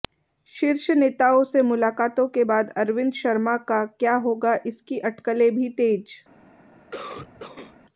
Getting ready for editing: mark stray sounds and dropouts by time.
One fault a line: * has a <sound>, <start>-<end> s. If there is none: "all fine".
* has a cough, 6.9-7.8 s